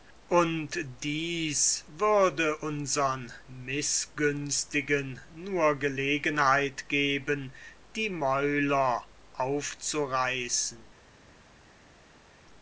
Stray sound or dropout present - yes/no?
no